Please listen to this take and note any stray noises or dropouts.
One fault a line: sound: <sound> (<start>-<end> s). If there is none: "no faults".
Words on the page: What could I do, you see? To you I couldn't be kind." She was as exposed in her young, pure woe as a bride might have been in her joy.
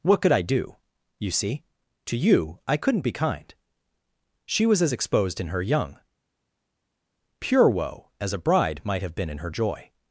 no faults